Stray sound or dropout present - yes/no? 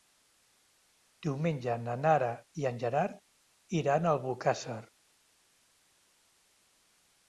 no